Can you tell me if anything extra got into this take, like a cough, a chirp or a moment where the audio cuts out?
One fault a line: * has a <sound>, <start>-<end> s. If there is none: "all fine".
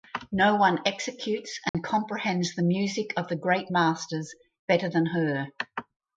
* has a dropout, 1.7-1.7 s